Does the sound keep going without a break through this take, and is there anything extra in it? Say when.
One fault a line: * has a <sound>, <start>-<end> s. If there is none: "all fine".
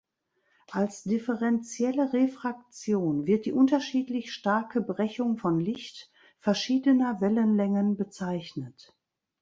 all fine